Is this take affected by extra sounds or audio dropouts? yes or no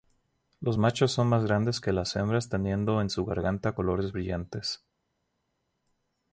no